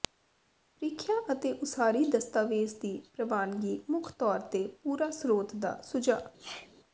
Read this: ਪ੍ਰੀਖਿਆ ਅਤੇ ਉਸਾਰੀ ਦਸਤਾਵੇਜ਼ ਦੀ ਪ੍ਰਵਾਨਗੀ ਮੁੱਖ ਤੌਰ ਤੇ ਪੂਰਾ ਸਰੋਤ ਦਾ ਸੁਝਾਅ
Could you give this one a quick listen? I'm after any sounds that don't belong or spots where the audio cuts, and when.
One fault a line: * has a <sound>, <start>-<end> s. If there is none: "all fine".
* has a sneeze, 6.4-6.7 s